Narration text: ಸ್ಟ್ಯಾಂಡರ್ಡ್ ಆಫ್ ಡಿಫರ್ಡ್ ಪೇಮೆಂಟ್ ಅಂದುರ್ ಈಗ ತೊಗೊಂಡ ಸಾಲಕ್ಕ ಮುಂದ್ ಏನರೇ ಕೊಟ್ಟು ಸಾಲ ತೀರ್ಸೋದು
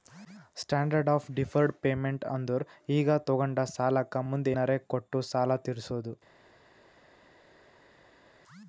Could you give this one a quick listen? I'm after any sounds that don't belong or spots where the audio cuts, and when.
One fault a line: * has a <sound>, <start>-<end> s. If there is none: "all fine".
all fine